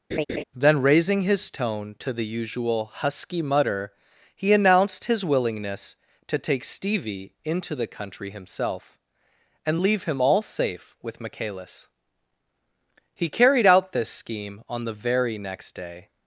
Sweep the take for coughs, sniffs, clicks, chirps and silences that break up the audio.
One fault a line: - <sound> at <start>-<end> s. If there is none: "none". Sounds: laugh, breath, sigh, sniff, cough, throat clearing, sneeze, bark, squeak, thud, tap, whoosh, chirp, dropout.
- laugh at 0.1-0.4 s